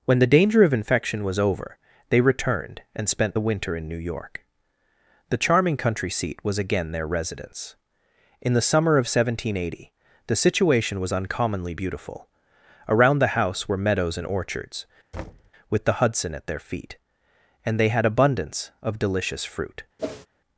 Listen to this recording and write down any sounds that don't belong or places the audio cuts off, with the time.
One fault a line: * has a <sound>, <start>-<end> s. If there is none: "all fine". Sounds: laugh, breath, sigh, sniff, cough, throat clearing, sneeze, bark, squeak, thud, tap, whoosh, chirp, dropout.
* has a thud, 15.1-15.5 s
* has a whoosh, 20.0-20.3 s